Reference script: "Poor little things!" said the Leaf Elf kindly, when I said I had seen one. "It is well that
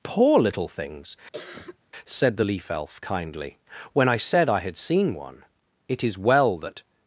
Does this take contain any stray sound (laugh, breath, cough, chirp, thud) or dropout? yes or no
yes